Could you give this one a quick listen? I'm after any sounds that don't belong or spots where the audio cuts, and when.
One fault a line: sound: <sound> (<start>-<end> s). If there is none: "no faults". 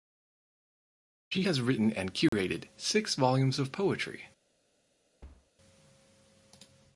sound: dropout (2.3-2.3 s)
sound: thud (5.2-5.5 s)